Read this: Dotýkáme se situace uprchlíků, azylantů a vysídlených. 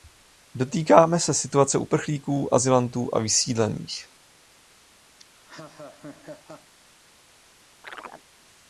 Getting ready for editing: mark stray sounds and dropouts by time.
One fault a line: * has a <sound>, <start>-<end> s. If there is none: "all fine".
* has a laugh, 5.2-6.7 s
* has a chirp, 7.8-8.2 s